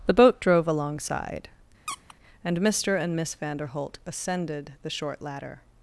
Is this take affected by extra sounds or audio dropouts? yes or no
yes